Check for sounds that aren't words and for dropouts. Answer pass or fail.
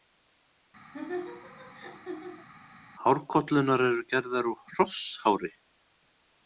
fail